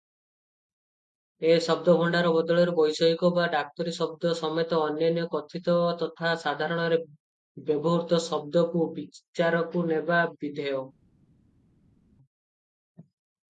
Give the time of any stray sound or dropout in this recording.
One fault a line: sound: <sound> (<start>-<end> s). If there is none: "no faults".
no faults